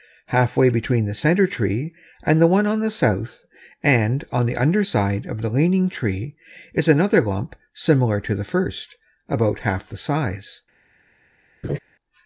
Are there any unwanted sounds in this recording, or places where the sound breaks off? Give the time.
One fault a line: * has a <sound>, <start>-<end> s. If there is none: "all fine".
* has a laugh, 11.6-11.8 s